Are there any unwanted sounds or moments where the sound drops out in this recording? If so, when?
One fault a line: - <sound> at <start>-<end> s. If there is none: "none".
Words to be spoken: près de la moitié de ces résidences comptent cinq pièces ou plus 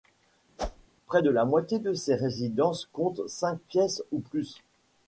- whoosh at 0.6-0.9 s